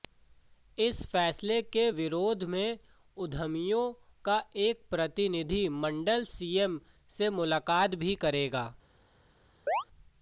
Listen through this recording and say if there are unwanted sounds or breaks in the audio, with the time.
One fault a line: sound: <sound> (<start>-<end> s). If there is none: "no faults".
sound: chirp (9.7-9.8 s)